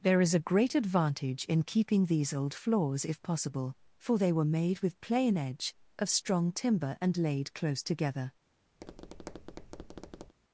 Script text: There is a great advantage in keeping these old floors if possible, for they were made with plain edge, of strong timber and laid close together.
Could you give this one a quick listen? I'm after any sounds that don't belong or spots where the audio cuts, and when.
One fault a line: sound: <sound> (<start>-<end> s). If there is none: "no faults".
sound: tap (8.8-10.3 s)